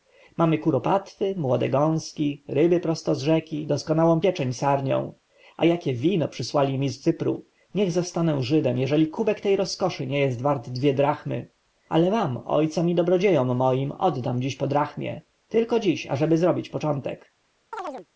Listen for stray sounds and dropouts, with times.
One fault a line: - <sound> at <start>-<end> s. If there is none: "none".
- chirp at 17.7-18.1 s